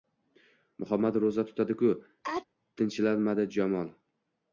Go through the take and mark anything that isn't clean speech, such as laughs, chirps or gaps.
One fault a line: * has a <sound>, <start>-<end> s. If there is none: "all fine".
* has a sneeze, 2.2-2.5 s